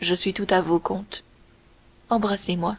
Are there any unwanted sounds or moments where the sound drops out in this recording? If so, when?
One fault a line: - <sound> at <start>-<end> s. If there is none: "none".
none